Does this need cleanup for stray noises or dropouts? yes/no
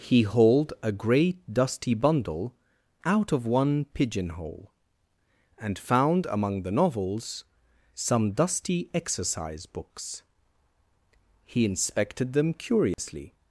yes